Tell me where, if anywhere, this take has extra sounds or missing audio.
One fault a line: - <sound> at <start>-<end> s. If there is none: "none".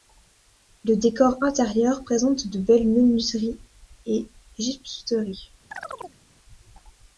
- chirp at 5.7-6.2 s